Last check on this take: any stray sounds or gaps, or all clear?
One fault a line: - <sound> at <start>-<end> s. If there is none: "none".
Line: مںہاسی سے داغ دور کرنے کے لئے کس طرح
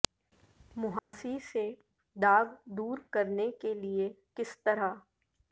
- dropout at 1.0-1.1 s